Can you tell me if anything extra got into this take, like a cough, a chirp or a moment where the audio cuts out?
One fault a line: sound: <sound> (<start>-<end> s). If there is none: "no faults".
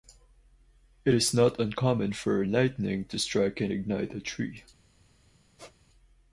sound: squeak (5.6-5.8 s)